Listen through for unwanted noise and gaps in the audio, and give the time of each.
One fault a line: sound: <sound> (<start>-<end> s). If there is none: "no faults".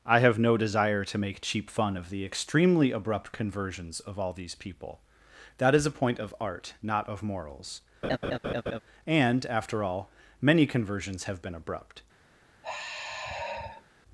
sound: laugh (8.0-8.8 s)
sound: sigh (12.6-13.9 s)